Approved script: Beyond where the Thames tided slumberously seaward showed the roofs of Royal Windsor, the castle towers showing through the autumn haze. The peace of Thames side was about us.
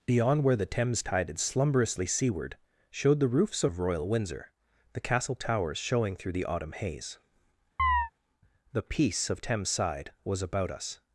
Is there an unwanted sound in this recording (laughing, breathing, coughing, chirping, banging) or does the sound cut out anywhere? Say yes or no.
yes